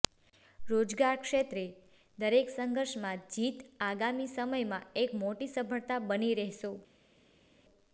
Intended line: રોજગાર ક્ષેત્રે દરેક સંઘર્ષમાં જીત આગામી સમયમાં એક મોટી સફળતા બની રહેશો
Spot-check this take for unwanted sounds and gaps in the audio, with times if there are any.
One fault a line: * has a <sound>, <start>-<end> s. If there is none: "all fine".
all fine